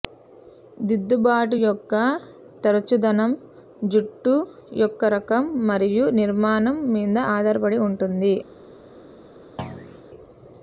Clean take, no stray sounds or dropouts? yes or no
no